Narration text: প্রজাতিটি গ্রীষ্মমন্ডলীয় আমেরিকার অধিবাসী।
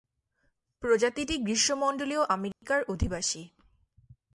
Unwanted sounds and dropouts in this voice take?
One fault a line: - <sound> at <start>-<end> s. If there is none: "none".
- dropout at 2.5-2.6 s